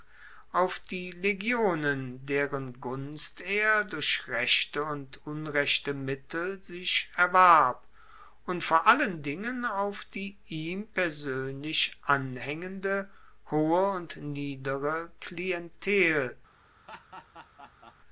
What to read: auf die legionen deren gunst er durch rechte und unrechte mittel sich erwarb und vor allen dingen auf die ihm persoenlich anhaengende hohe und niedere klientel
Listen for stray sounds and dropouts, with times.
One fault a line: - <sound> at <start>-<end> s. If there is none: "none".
- laugh at 16.9-18.0 s